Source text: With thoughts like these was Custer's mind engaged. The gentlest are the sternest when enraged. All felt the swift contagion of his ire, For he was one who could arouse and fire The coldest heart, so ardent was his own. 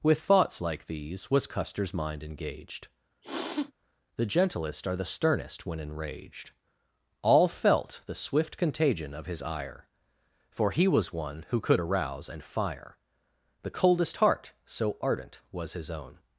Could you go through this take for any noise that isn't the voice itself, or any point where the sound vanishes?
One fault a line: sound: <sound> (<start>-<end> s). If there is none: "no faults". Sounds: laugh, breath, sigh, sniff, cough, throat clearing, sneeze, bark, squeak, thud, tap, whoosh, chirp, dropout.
sound: sniff (3.2-3.7 s)